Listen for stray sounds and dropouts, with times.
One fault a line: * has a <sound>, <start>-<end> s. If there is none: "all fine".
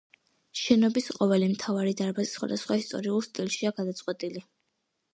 all fine